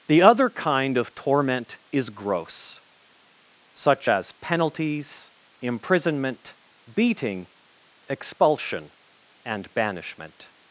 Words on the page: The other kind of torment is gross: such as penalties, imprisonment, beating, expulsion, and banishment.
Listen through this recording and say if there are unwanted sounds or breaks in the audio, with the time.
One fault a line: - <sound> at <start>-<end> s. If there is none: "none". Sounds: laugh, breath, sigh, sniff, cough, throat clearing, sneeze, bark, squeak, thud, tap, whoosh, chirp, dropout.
none